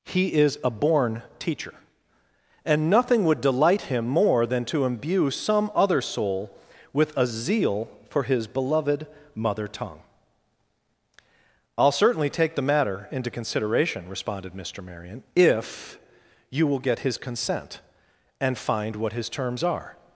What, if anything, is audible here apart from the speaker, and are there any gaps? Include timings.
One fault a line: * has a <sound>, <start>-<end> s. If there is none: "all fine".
all fine